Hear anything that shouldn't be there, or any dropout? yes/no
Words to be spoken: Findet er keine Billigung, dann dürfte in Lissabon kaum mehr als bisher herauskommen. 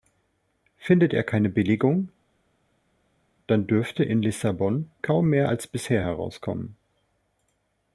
no